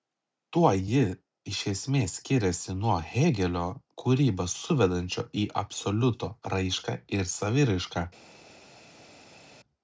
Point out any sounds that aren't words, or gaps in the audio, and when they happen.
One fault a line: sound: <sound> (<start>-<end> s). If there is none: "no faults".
no faults